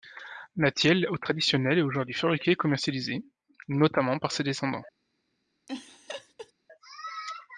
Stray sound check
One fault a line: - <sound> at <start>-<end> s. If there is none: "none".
- laugh at 5.7-6.5 s